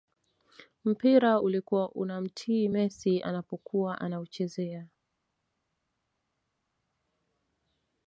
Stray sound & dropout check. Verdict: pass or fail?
pass